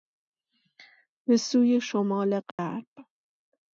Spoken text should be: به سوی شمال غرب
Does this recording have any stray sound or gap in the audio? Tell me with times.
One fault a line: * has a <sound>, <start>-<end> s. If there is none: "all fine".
* has a dropout, 2.5-2.6 s